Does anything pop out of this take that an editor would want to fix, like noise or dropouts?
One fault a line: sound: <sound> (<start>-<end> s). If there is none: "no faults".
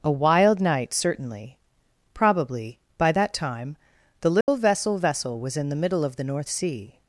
sound: dropout (4.4-4.5 s)